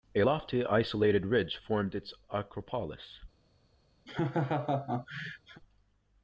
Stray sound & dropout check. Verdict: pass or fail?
fail